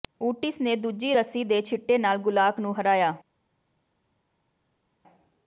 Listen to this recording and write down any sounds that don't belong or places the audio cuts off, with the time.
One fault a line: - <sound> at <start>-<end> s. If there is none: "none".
none